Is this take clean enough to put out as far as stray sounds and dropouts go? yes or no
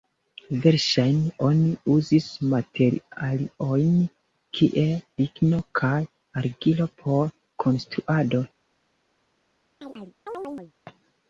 no